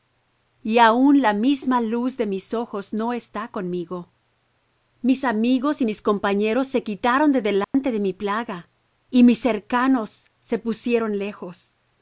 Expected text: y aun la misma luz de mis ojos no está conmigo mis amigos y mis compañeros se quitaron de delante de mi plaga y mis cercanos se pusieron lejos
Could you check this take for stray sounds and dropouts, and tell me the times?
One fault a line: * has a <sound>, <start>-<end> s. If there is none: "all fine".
* has a dropout, 7.6-7.7 s